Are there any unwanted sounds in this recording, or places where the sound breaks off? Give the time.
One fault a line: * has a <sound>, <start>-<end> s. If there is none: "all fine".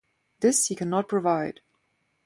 all fine